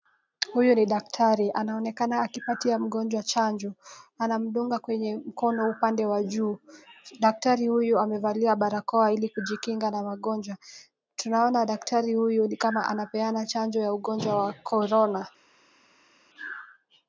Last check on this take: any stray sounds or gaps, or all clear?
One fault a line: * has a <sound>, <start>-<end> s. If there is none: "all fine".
all fine